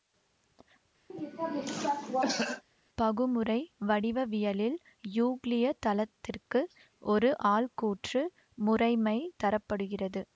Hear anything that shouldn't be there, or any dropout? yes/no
yes